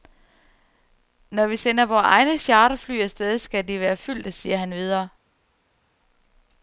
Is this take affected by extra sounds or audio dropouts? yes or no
no